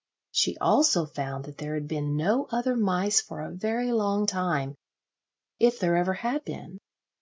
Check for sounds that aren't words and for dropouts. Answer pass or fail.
pass